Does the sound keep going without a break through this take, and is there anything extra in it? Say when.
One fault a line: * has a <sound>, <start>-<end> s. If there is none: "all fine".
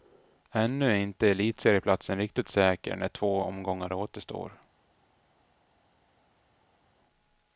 all fine